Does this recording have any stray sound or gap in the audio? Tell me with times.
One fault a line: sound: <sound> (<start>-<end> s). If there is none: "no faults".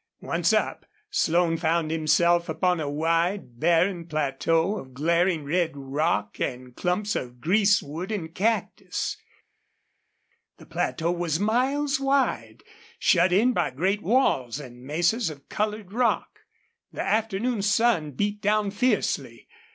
no faults